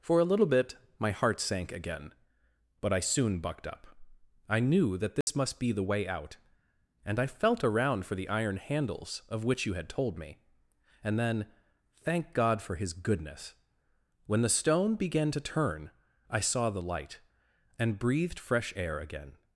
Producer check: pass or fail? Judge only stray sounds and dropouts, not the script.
fail